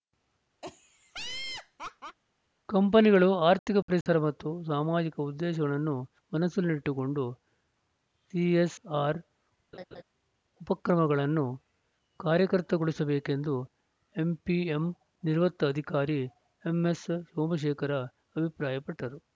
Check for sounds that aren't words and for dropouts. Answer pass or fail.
fail